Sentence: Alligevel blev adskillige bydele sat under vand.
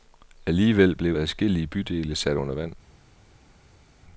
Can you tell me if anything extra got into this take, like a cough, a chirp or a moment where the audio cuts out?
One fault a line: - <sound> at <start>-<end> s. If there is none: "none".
none